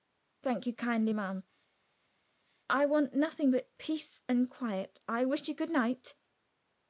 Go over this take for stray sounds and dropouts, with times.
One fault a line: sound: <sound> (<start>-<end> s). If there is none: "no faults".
no faults